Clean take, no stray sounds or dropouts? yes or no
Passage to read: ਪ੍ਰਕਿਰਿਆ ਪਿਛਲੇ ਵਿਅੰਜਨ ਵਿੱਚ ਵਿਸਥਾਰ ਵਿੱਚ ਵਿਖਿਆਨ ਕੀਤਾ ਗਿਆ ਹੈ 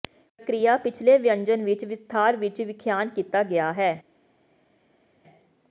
yes